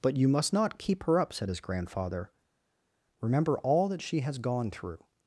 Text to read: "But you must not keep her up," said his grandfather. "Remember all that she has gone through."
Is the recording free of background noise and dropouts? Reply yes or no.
yes